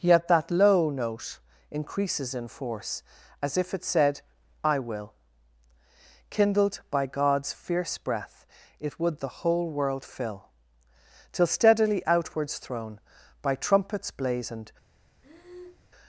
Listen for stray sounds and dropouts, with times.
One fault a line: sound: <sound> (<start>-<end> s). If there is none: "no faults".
sound: breath (15.2-15.9 s)